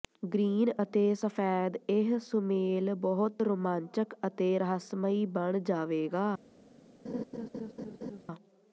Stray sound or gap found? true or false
true